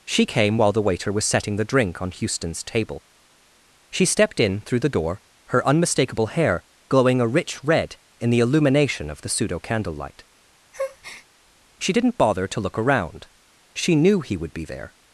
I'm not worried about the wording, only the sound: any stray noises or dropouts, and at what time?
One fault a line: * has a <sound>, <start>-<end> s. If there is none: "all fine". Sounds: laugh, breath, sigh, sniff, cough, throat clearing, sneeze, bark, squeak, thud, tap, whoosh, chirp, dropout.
* has a breath, 10.7-11.3 s